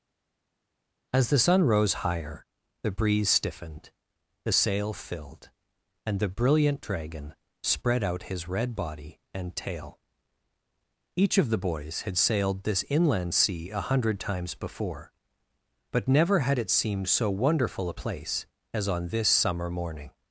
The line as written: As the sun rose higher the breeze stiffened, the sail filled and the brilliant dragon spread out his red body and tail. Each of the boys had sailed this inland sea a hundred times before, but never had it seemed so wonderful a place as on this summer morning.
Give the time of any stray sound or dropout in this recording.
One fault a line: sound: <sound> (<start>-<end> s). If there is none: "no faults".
no faults